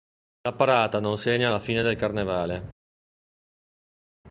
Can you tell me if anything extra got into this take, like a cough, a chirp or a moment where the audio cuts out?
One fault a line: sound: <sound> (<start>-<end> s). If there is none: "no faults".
no faults